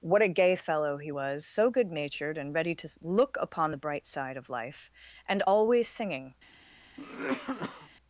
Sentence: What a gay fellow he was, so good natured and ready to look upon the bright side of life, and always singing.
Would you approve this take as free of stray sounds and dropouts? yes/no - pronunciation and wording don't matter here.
no